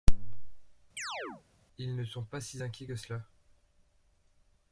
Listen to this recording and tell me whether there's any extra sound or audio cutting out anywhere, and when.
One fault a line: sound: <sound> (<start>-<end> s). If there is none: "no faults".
sound: chirp (1.0-1.4 s)